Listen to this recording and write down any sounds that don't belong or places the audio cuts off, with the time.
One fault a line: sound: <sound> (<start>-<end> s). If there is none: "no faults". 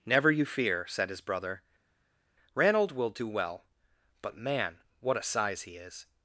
no faults